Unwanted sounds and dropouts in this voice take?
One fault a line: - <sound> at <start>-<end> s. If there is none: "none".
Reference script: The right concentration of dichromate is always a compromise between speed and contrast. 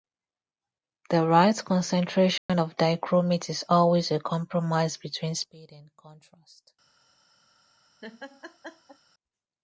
- dropout at 2.4-2.5 s
- laugh at 8.0-9.0 s